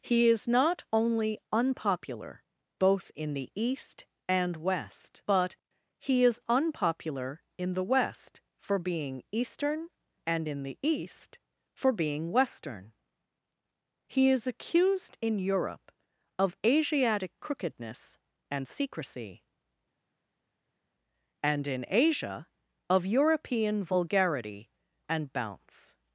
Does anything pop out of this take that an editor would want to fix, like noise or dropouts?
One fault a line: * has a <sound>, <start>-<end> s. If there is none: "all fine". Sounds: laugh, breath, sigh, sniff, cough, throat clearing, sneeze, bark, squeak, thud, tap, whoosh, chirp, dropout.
all fine